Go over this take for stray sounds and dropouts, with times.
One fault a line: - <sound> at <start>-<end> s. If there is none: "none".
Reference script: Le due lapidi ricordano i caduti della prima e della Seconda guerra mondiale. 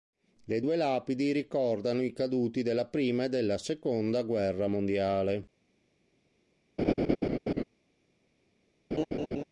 - laugh at 6.8-7.6 s
- laugh at 8.9-9.4 s